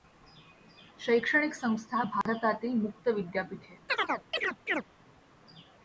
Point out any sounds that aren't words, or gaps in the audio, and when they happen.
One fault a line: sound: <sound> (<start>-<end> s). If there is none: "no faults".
sound: dropout (2.2-2.3 s)
sound: chirp (3.9-4.8 s)